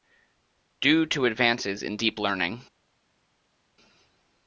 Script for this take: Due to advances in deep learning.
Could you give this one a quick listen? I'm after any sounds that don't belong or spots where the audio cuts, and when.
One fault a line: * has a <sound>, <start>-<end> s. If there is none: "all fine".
all fine